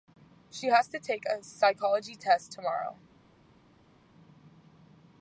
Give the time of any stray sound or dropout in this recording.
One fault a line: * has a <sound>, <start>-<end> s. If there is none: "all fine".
all fine